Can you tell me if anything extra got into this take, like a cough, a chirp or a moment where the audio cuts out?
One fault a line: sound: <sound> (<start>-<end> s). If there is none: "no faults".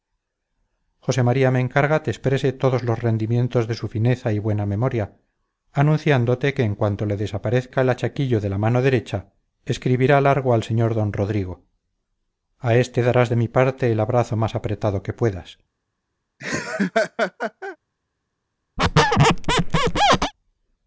sound: laugh (16.4-17.8 s)
sound: squeak (18.8-20.3 s)